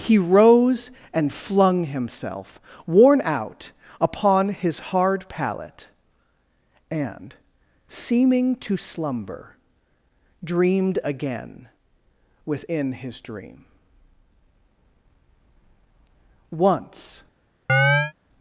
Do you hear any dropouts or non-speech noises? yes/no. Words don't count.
yes